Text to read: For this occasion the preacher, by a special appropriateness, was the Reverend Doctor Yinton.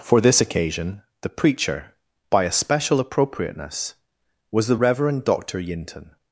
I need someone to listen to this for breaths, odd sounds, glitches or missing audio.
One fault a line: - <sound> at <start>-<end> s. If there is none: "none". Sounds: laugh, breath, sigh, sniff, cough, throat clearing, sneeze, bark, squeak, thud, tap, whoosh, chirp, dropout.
none